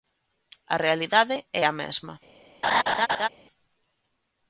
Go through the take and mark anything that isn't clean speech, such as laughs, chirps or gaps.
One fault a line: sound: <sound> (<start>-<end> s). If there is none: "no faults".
sound: laugh (2.6-3.3 s)